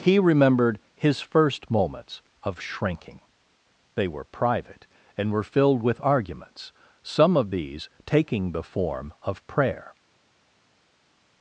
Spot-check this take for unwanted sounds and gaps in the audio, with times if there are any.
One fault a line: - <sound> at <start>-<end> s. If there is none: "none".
none